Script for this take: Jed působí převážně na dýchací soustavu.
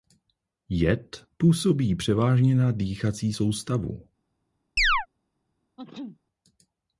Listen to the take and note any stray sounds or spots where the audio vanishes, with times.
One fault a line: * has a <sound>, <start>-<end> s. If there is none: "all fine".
* has a chirp, 4.8-5.1 s
* has a sneeze, 5.8-6.2 s